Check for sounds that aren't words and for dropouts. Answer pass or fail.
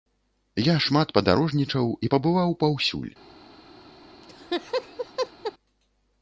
fail